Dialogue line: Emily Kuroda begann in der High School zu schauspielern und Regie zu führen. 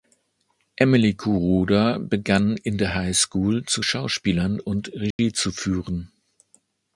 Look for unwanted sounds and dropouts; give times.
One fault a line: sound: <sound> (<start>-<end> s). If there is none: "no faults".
sound: dropout (5.1-5.2 s)